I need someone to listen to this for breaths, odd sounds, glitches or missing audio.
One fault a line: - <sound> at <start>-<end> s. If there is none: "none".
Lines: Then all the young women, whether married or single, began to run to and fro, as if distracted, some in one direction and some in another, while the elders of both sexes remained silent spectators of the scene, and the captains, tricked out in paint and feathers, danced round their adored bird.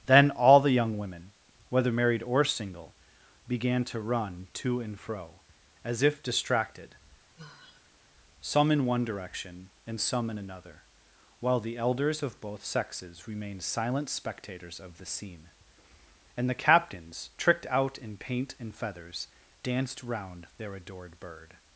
- sigh at 7.4-8.1 s